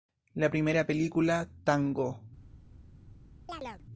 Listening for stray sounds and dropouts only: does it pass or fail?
fail